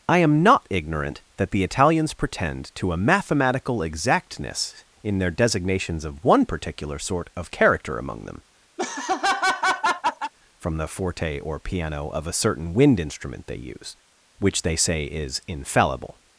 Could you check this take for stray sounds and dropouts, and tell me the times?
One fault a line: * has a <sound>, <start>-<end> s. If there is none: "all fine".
* has a laugh, 8.8-10.3 s